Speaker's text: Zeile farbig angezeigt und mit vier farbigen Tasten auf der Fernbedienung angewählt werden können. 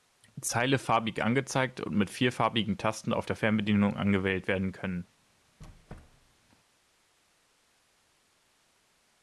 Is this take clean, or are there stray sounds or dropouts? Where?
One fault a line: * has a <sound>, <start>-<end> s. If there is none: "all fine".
* has a squeak, 5.6-6.4 s